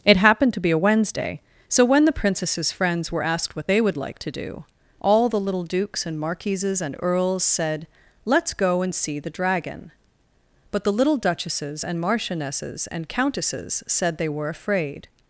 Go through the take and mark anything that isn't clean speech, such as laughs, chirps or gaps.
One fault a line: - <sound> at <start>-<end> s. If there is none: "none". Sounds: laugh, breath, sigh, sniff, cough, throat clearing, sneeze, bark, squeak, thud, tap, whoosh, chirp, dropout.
none